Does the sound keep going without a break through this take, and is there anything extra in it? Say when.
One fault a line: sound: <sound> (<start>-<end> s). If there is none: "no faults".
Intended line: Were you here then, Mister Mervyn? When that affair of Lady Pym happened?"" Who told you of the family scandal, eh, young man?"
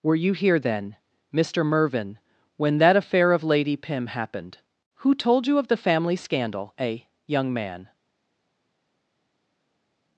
no faults